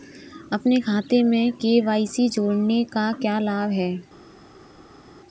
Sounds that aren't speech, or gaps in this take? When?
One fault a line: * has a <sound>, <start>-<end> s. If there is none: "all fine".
all fine